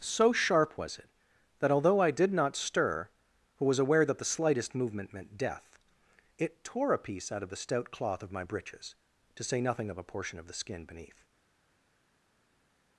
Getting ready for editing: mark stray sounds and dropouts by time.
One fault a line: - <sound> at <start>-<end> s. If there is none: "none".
none